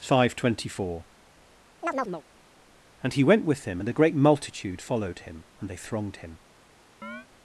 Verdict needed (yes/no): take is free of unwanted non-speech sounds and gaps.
no